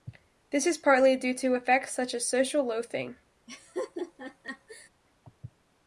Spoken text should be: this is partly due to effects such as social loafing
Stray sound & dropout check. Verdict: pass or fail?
fail